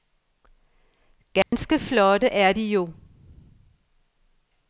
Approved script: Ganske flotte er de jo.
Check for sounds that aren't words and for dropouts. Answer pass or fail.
fail